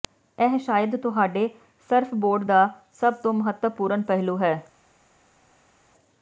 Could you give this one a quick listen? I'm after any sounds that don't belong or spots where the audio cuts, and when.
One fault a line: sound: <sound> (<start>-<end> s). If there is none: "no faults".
no faults